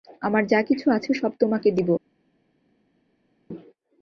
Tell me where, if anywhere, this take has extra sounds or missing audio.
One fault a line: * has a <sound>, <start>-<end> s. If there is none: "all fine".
all fine